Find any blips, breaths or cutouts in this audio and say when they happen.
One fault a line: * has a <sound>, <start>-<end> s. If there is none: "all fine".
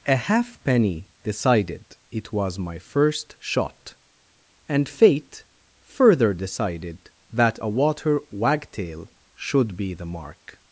all fine